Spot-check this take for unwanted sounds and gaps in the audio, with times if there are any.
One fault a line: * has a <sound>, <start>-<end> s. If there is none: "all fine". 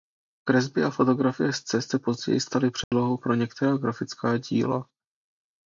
* has a dropout, 2.8-2.9 s